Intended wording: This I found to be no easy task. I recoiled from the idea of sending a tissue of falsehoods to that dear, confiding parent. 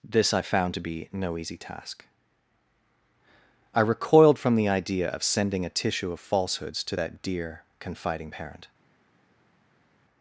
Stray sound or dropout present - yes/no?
no